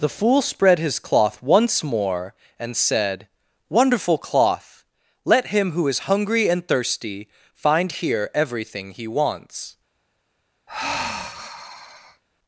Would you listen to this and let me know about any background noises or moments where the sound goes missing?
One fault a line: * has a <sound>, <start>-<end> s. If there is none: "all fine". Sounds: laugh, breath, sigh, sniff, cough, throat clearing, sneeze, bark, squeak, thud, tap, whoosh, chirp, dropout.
* has a sigh, 10.7-12.2 s